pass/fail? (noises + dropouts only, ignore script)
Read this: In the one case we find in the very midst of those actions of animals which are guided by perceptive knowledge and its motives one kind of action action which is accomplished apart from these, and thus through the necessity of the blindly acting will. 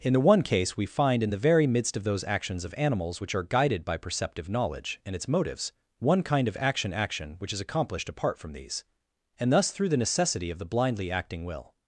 pass